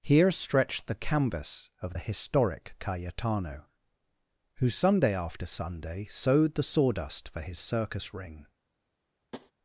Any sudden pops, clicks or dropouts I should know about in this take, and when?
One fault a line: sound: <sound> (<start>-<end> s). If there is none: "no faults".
sound: tap (9.3-9.5 s)